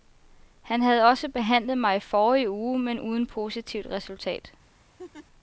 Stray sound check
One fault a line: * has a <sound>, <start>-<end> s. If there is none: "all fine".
* has a laugh, 5.0-5.3 s